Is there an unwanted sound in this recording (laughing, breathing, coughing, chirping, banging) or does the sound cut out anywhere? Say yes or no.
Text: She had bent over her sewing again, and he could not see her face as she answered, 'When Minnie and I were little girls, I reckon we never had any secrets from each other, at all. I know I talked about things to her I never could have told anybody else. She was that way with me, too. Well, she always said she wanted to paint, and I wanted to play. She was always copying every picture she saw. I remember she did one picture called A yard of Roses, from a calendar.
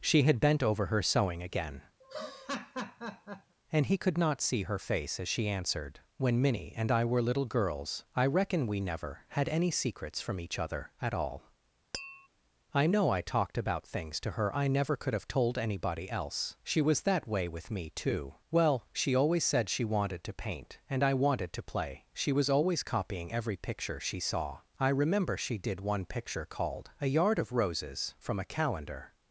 yes